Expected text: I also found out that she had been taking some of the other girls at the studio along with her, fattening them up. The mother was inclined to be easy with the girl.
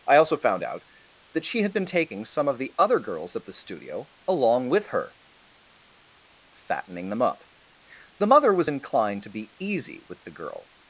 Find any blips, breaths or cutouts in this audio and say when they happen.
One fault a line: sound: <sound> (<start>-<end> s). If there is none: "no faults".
no faults